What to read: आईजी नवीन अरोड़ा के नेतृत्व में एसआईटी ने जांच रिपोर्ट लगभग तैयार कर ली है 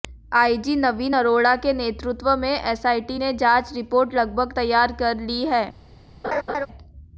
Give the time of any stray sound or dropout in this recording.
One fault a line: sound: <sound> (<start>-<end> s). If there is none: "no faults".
sound: laugh (6.2-6.7 s)